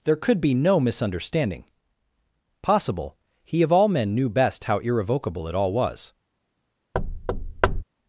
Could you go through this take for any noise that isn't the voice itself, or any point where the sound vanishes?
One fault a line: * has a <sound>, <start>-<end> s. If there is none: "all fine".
* has a thud, 6.9-7.8 s